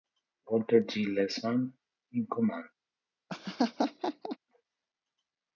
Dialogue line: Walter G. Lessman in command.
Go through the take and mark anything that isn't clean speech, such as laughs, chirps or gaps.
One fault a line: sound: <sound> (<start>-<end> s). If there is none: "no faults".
sound: laugh (3.3-4.4 s)